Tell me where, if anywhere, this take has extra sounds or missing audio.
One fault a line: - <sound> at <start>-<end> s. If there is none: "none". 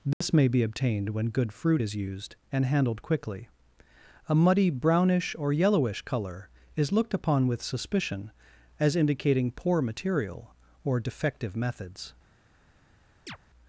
- dropout at 0.1-0.2 s
- chirp at 13.3-13.4 s